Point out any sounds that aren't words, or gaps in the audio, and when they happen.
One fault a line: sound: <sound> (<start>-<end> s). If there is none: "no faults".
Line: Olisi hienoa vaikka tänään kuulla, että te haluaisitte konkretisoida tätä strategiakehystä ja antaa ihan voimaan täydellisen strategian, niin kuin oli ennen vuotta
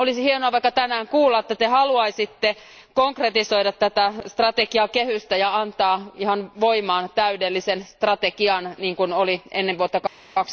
no faults